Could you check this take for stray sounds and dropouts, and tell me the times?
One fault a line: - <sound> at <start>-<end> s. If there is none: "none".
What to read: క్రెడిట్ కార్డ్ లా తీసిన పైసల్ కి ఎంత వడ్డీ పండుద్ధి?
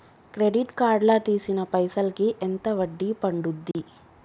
- dropout at 3.7-3.7 s